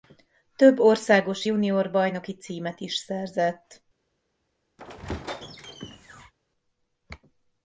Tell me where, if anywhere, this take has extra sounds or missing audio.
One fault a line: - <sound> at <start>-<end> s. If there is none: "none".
- squeak at 4.8-6.3 s